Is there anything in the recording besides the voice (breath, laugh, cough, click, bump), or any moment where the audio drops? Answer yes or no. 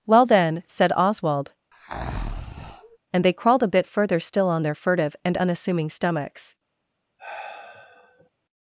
yes